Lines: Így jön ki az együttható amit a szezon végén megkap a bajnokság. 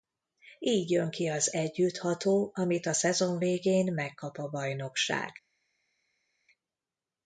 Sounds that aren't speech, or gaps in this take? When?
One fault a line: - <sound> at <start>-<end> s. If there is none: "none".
none